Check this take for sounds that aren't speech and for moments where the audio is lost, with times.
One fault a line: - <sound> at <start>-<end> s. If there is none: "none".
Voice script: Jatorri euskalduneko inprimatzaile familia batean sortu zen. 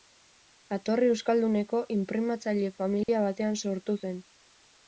- dropout at 3.0-3.1 s